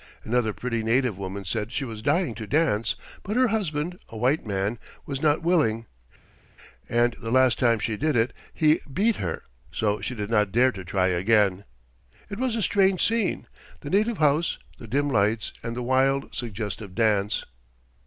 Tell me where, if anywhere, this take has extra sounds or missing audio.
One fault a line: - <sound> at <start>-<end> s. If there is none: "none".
none